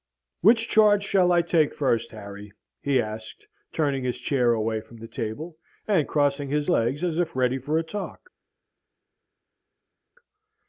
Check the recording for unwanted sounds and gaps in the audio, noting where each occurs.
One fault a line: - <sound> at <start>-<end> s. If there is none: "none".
none